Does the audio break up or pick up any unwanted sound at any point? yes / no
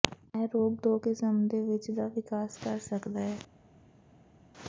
no